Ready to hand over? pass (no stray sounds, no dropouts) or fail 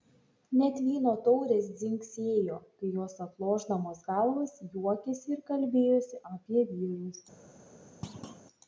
fail